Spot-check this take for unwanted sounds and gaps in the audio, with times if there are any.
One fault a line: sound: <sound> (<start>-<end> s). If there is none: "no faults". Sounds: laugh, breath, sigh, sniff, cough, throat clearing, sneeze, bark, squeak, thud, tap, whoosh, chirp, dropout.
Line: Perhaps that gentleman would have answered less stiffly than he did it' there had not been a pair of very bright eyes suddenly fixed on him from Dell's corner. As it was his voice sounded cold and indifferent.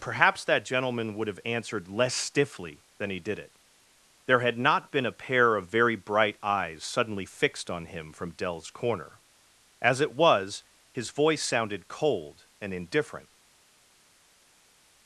no faults